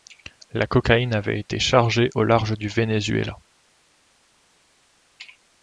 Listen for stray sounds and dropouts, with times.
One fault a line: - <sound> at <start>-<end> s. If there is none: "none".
none